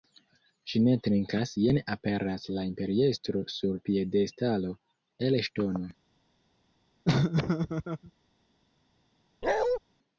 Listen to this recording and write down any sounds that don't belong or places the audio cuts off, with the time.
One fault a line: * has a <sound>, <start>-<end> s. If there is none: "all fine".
* has a laugh, 7.0-8.1 s
* has a bark, 9.4-9.8 s